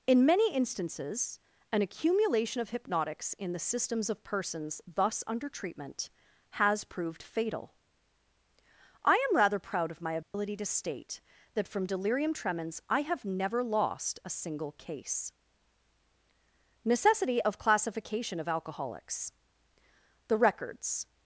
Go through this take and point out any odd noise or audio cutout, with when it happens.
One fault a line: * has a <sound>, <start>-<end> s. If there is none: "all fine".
* has a dropout, 10.2-10.3 s